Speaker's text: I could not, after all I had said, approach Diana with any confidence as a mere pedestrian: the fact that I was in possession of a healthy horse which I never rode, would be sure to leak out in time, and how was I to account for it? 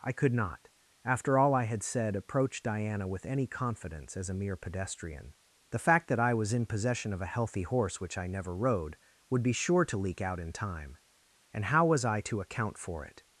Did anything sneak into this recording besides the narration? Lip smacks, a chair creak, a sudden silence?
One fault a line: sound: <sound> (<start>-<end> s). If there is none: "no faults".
no faults